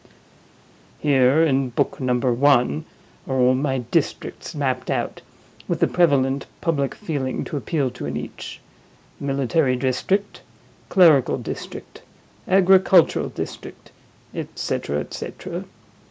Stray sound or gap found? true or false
false